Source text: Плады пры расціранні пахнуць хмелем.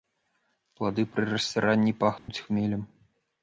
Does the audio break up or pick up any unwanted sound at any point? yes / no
yes